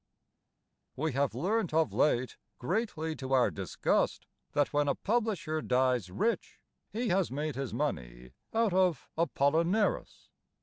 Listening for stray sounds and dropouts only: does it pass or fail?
pass